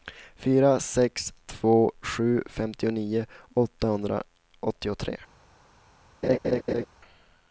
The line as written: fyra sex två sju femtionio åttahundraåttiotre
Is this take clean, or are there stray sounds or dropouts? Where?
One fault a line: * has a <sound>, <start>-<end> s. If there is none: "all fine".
* has a laugh, 6.2-6.9 s